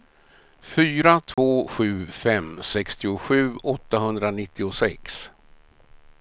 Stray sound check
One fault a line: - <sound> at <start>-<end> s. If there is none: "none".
- dropout at 1.3-1.4 s